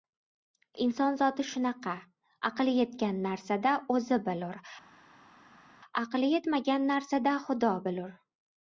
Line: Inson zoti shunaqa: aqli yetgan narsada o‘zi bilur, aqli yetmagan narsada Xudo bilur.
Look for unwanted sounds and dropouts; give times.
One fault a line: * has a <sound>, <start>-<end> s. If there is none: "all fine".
all fine